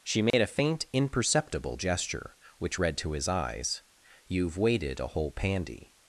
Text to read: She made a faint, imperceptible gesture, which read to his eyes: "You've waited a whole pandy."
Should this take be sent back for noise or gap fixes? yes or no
yes